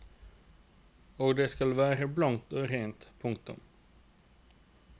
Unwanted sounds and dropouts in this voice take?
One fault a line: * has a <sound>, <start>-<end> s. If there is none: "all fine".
all fine